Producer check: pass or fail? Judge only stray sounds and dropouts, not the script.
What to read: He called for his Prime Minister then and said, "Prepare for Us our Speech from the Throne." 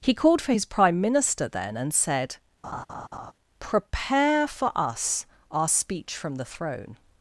fail